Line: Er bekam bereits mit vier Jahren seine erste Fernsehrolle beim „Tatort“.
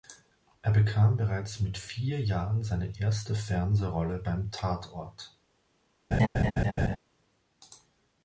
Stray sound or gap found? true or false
true